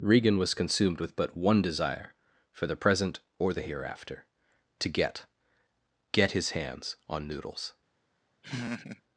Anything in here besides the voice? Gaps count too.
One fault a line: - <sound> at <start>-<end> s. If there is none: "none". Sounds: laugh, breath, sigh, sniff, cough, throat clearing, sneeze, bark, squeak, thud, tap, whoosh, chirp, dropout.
- laugh at 8.4-9.0 s